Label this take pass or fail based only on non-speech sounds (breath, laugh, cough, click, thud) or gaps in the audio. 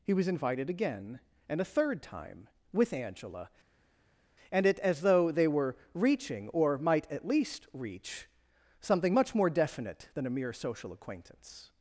pass